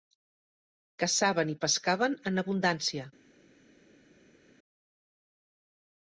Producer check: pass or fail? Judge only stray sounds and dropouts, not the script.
pass